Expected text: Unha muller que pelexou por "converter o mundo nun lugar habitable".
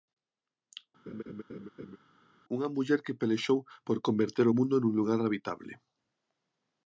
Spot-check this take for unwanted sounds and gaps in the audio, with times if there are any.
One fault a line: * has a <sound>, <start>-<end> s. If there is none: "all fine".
* has a laugh, 1.1-2.0 s